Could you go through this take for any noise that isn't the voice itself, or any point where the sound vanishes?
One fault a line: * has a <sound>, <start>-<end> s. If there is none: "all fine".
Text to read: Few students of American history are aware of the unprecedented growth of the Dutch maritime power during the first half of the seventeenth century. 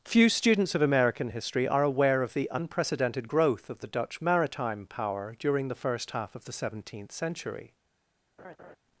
* has a laugh, 8.4-8.8 s